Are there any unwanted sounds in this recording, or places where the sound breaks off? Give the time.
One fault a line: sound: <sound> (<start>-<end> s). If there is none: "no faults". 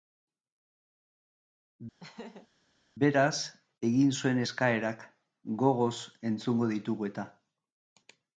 sound: laugh (2.0-2.5 s)